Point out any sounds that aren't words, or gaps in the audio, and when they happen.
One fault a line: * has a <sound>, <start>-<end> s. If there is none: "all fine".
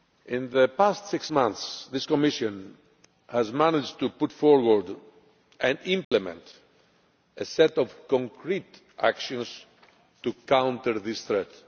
* has a dropout, 6.0-6.1 s